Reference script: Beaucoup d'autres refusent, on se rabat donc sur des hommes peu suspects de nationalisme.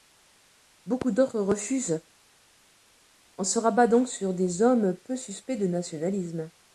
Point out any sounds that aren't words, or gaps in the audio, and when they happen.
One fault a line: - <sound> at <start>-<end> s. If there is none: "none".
none